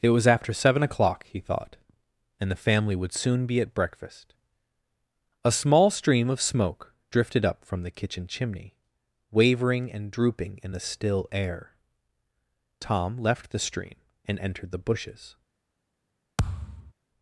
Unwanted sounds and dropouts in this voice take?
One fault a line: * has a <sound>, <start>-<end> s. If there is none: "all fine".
* has a thud, 16.4-16.9 s